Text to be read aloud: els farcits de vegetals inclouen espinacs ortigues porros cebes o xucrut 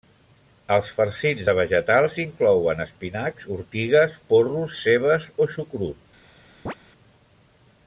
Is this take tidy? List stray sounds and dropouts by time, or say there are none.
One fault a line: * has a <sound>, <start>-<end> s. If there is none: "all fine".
* has a chirp, 6.7-6.7 s